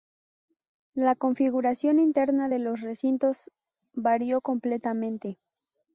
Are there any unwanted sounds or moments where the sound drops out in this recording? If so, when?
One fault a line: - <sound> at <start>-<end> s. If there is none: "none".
none